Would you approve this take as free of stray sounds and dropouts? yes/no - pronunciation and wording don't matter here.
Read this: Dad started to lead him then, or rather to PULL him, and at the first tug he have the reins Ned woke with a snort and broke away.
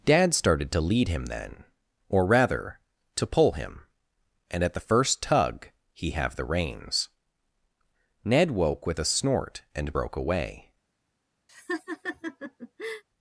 no